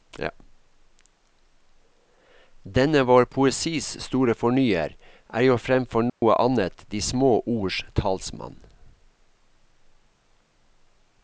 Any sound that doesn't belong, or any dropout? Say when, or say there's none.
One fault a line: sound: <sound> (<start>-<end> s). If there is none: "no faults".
sound: dropout (6.1-6.2 s)